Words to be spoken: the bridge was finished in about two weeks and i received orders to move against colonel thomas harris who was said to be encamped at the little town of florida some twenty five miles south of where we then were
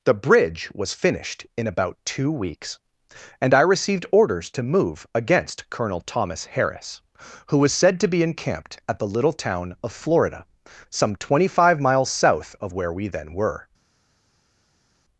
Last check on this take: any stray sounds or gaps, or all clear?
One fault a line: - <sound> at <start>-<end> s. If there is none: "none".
none